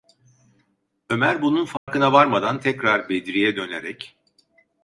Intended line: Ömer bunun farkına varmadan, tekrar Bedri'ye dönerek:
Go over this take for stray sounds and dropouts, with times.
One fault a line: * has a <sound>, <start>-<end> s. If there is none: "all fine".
* has a dropout, 1.8-1.9 s